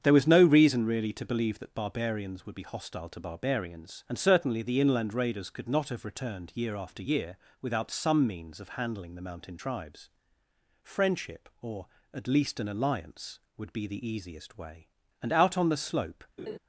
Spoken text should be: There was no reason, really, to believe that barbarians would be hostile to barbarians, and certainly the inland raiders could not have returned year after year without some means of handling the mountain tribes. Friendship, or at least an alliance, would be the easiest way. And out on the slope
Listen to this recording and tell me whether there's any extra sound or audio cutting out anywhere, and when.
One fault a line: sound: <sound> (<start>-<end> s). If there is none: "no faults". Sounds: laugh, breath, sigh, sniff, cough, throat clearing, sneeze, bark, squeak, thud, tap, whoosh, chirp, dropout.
sound: laugh (16.4-16.6 s)